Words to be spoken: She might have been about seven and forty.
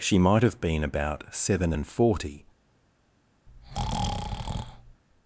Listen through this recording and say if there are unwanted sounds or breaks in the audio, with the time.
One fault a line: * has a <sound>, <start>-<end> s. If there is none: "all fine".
* has a breath, 3.5-5.0 s